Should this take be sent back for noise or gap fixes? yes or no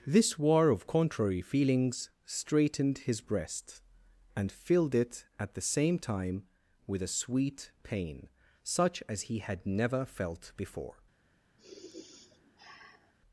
yes